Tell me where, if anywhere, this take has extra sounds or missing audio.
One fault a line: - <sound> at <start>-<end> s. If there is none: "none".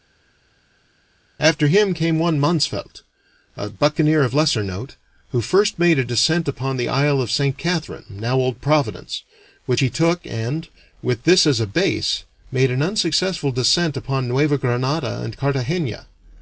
none